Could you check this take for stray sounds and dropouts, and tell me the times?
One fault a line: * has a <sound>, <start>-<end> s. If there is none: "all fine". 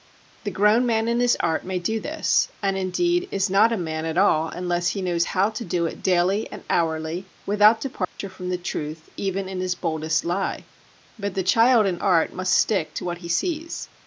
* has a dropout, 8.0-8.2 s